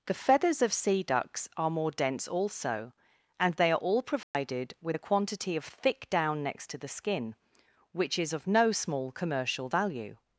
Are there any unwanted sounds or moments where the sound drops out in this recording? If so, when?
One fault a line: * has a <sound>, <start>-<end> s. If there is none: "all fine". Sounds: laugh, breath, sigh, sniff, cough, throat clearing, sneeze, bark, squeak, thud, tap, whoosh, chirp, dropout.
* has a dropout, 4.2-4.3 s